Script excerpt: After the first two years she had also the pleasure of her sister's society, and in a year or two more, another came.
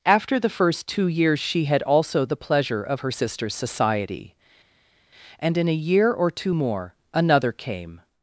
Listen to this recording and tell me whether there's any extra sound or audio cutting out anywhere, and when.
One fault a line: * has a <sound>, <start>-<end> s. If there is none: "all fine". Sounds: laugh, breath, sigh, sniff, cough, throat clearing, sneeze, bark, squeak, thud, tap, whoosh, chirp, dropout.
all fine